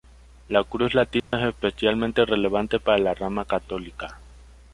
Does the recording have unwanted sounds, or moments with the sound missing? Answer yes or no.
yes